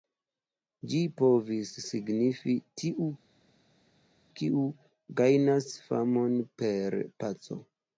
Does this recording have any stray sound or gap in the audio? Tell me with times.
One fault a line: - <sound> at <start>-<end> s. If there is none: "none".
none